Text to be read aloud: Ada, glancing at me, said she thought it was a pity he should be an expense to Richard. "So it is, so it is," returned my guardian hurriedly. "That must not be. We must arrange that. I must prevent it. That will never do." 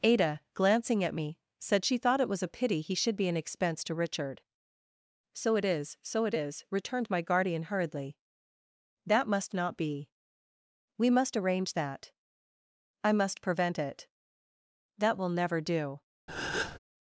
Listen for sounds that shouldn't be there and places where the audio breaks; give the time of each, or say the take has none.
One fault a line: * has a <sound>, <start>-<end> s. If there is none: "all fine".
* has a breath, 16.3-16.8 s